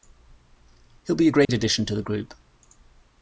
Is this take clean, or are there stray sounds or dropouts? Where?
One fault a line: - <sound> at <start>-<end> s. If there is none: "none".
- dropout at 1.4-1.5 s